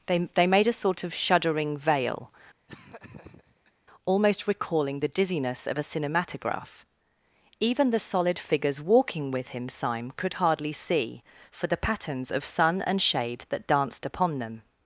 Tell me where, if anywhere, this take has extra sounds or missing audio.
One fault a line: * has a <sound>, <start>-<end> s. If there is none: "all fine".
* has a laugh, 2.7-3.7 s